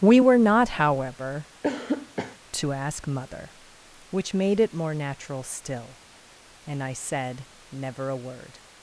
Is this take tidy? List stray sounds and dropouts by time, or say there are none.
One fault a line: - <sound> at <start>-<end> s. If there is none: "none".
- cough at 1.6-2.4 s